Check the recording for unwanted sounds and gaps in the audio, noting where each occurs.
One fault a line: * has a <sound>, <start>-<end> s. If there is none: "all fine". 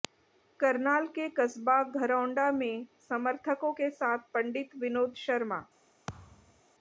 * has a thud, 6.1-6.6 s